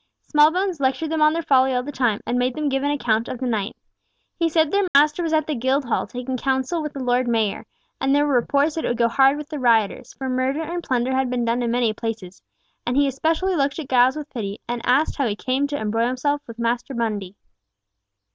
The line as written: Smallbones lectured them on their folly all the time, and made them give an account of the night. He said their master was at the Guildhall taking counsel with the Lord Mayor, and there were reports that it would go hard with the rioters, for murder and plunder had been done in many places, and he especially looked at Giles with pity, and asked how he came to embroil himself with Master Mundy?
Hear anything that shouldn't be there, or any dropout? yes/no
yes